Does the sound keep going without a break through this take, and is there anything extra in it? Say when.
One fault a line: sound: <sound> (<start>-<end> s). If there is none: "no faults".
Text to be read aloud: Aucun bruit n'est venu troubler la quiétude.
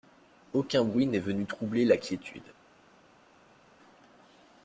no faults